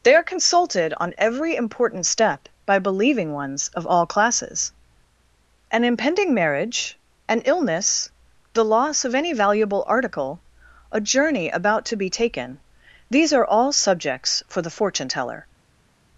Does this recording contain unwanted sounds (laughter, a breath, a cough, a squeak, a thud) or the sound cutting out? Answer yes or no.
no